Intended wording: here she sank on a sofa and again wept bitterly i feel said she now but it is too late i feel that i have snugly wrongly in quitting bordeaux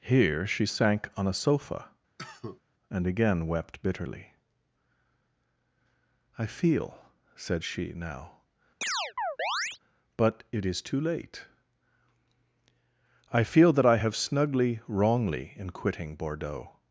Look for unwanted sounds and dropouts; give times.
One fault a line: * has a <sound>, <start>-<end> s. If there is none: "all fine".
* has a cough, 2.2-2.6 s
* has a chirp, 8.8-9.8 s